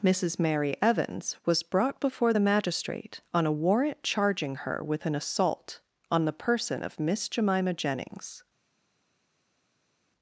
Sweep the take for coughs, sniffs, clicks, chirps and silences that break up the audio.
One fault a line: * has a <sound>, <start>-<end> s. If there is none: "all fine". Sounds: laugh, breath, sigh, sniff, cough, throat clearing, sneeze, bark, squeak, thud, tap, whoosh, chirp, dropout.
all fine